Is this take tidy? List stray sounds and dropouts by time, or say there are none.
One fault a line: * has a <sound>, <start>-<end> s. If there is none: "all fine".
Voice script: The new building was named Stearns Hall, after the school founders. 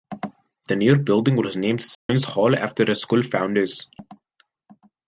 * has a dropout, 1.9-2.1 s